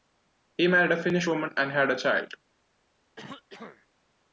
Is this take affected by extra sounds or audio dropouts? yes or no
yes